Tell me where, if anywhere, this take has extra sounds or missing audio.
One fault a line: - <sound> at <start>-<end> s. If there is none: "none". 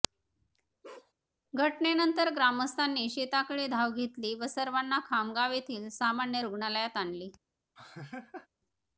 - bark at 0.8-1.1 s
- laugh at 7.8-8.5 s